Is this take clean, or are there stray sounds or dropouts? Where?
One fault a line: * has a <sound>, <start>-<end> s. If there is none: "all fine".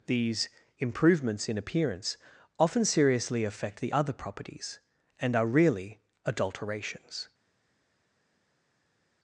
all fine